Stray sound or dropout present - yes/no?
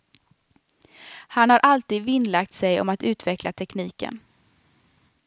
no